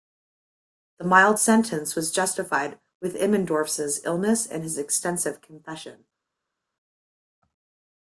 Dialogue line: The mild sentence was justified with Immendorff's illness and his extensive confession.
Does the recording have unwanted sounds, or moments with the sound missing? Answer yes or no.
no